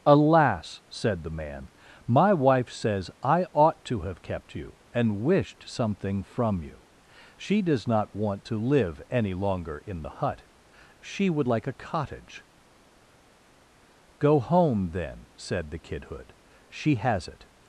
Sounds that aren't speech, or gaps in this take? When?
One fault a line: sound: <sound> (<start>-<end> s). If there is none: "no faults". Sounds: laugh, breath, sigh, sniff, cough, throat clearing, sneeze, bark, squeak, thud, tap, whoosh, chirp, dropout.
no faults